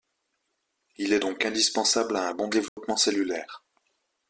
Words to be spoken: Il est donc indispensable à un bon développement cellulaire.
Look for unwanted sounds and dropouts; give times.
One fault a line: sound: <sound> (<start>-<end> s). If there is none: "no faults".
sound: dropout (2.7-2.8 s)